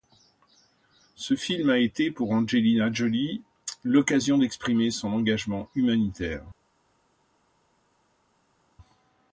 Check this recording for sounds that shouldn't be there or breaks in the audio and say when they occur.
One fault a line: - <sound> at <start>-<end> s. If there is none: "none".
none